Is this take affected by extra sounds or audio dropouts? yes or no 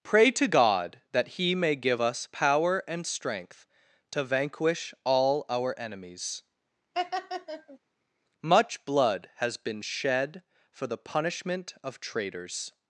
yes